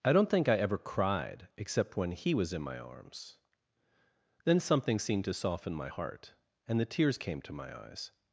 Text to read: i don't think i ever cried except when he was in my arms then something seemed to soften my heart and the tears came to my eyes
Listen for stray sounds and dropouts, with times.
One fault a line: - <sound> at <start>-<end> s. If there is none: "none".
none